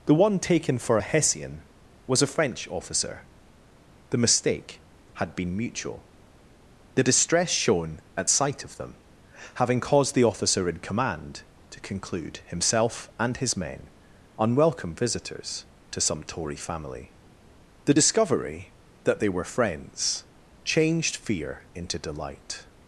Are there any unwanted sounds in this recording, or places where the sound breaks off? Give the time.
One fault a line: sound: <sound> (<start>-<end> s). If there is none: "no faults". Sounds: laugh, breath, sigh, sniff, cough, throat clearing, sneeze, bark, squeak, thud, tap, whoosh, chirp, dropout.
no faults